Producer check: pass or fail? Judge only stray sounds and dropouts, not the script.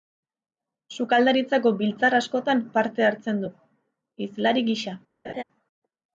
fail